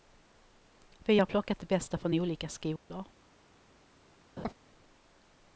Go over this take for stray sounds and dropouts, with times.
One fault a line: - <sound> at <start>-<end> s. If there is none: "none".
- dropout at 2.8-2.9 s
- laugh at 4.4-4.5 s